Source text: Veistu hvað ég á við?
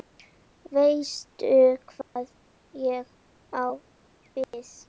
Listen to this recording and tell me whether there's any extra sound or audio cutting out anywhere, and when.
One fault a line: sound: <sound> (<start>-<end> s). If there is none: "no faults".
sound: dropout (2.0-2.2 s)
sound: dropout (4.4-4.5 s)